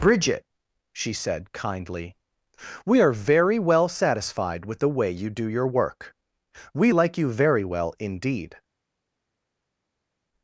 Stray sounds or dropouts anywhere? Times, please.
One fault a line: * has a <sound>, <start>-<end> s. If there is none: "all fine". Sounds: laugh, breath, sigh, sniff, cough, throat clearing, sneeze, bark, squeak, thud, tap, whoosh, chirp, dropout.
all fine